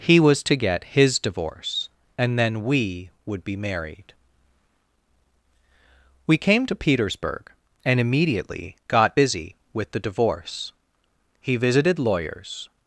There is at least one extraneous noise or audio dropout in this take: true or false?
false